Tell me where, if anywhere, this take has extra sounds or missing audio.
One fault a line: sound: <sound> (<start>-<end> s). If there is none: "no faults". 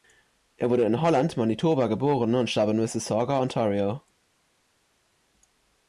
no faults